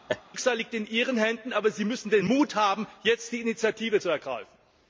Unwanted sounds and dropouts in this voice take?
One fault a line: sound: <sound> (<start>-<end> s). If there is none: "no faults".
sound: laugh (0.1-0.2 s)